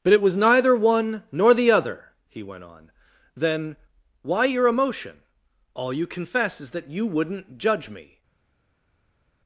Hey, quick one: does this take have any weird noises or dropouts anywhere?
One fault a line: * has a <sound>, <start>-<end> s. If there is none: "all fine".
all fine